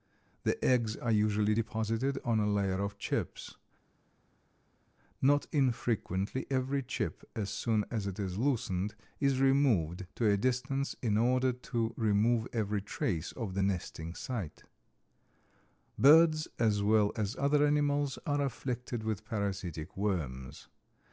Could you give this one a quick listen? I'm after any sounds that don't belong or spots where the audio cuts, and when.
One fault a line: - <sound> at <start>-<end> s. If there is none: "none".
none